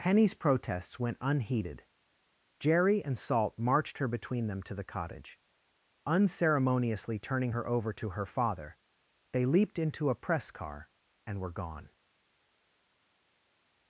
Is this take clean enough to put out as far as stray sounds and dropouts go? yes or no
yes